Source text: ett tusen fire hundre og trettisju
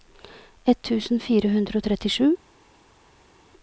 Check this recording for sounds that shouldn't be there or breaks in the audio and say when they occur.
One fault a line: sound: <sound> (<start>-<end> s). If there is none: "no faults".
no faults